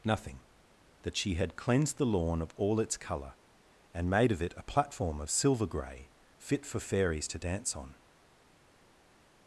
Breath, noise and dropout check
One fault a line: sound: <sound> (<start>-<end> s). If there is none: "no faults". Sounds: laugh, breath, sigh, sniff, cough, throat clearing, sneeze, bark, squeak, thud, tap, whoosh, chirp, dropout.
no faults